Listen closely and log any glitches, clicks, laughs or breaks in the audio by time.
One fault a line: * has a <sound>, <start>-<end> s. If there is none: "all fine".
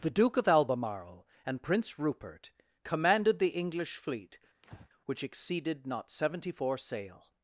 * has a breath, 4.6-4.9 s